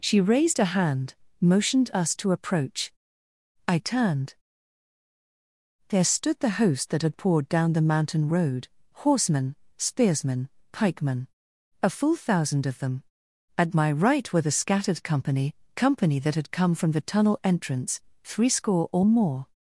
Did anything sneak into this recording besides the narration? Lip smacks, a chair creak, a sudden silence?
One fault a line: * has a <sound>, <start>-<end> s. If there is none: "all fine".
all fine